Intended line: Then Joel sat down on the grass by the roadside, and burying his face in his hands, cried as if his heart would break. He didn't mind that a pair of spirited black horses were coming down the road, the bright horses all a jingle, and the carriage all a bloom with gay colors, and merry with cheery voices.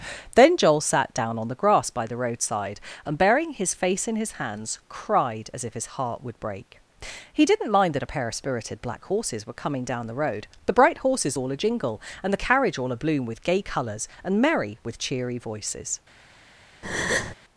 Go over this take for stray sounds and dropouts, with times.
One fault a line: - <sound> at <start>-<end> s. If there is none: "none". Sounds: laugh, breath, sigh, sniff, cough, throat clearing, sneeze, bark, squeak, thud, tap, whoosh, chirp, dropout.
- breath at 16.8-17.3 s